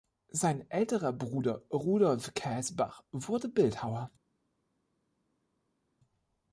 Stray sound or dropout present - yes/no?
no